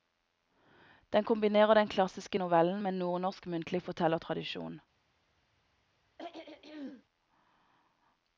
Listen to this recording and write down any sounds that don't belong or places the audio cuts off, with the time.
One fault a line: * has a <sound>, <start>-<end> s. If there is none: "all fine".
* has a throat clearing, 6.2-7.0 s